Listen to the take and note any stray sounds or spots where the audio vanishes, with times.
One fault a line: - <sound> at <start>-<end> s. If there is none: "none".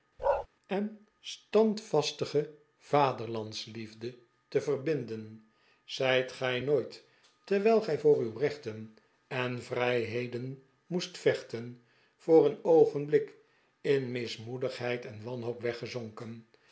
- bark at 0.2-0.5 s